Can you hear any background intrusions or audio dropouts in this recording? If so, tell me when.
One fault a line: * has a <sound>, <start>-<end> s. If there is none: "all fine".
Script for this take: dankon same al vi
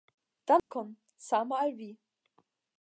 * has a dropout, 0.6-0.7 s